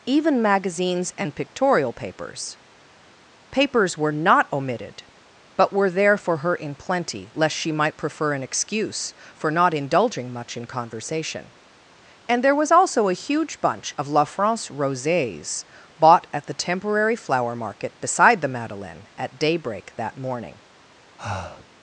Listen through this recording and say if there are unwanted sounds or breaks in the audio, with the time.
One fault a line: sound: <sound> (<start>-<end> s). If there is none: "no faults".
sound: breath (21.2-21.7 s)